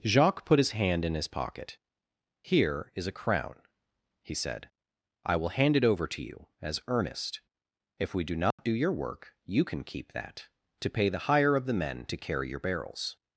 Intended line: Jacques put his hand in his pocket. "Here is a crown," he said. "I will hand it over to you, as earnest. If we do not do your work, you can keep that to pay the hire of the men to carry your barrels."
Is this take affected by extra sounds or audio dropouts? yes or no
yes